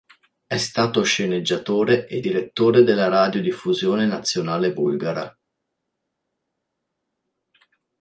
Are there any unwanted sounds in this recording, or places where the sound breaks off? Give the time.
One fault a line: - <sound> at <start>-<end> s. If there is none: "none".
none